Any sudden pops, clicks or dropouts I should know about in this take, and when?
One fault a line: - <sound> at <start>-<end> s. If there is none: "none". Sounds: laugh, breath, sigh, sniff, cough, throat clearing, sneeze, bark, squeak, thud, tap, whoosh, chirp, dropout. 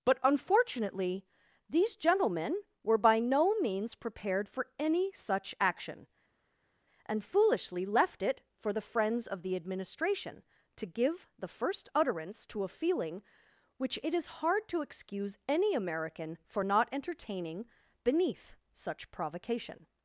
none